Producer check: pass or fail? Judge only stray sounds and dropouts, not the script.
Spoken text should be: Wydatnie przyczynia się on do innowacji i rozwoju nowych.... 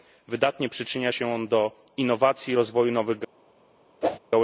fail